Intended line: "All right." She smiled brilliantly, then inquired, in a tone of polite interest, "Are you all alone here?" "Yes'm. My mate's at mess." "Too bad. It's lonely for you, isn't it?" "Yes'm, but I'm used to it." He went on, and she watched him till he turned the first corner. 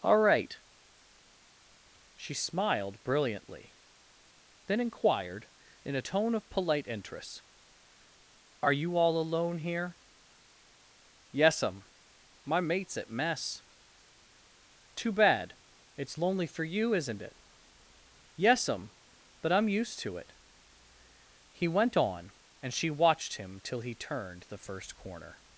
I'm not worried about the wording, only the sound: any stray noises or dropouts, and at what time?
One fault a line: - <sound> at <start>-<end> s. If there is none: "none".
none